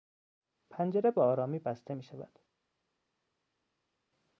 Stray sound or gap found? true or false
false